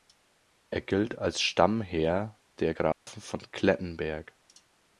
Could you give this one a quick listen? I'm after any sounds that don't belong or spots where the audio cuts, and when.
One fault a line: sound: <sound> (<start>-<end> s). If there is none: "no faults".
sound: dropout (2.9-3.1 s)